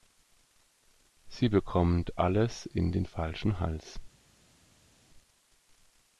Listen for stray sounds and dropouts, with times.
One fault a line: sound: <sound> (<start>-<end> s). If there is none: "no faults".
no faults